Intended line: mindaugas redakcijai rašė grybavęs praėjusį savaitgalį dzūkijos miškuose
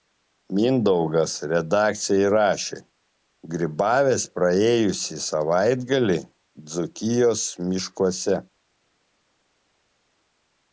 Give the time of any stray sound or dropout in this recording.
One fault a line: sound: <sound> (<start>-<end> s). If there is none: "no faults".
no faults